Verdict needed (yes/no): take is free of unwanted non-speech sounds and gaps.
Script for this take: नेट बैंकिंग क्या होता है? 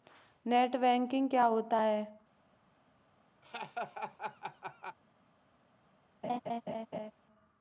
no